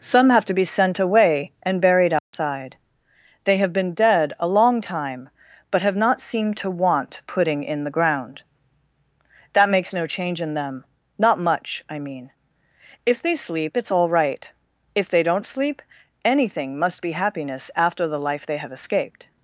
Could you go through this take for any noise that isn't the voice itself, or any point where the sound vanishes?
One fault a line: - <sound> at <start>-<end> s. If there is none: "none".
- dropout at 2.2-2.3 s